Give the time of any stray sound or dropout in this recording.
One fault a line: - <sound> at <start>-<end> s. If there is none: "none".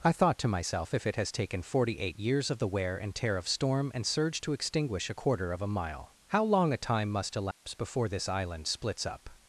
- dropout at 7.5-7.6 s